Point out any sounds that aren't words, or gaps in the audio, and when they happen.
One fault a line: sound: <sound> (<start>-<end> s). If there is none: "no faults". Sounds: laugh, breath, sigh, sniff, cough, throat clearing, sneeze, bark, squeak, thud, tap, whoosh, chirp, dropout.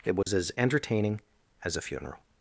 sound: dropout (0.2-0.3 s)